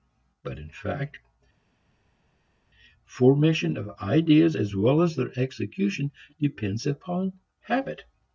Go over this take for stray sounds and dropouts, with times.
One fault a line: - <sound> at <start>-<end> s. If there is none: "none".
none